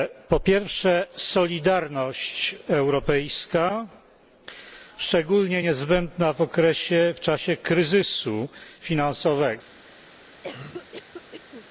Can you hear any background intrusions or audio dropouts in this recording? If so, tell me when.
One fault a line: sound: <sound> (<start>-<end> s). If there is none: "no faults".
sound: cough (10.4-11.7 s)